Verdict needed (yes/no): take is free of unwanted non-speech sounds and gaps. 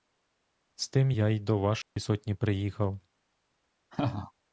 no